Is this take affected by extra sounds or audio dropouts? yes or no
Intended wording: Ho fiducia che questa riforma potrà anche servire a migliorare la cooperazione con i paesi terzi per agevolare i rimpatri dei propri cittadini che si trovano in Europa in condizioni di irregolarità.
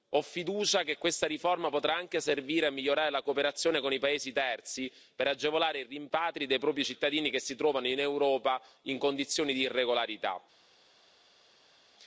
no